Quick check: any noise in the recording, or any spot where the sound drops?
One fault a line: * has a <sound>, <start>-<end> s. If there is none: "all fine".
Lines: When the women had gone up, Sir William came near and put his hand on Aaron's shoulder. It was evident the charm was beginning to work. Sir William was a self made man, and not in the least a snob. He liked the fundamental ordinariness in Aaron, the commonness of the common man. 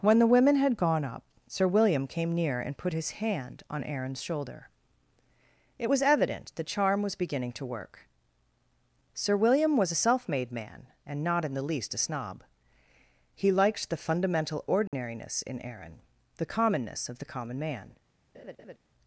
* has a dropout, 14.9-14.9 s
* has a laugh, 18.3-18.8 s